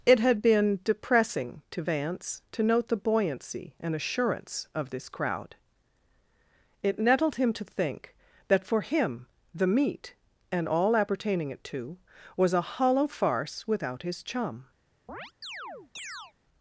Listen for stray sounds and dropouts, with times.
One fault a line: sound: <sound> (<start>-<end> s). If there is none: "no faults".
sound: chirp (15.1-16.3 s)